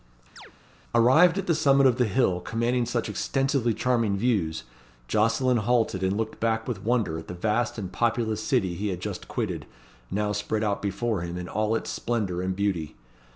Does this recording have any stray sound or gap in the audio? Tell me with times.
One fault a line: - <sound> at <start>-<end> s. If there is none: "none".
- chirp at 0.4-0.5 s